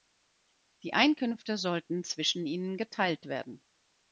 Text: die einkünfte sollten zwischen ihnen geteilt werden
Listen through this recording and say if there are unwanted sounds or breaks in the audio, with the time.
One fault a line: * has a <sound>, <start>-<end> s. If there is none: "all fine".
all fine